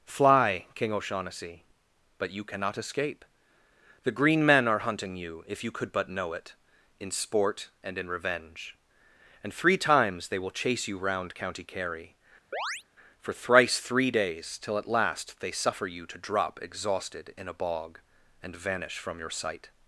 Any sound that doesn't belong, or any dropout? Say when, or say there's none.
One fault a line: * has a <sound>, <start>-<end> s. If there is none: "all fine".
* has a chirp, 12.5-12.8 s